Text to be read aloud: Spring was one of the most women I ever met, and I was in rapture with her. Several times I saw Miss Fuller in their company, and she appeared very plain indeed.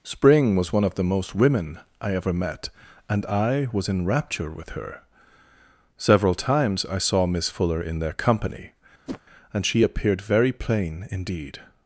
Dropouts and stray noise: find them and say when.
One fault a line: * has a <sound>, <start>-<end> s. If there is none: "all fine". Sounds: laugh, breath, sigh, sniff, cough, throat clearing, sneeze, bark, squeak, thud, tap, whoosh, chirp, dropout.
* has a whoosh, 9.1-9.2 s